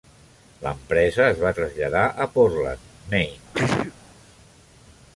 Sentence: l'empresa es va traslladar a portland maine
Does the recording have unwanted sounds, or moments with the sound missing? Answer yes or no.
yes